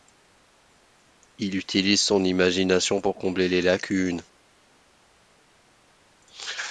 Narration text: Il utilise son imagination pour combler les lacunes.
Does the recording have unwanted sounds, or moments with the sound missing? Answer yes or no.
no